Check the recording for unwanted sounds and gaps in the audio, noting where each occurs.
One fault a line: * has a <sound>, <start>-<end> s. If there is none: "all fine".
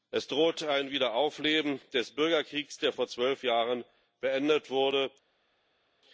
all fine